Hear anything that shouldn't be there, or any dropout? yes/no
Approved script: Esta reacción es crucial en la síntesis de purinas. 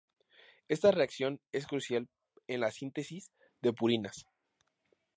no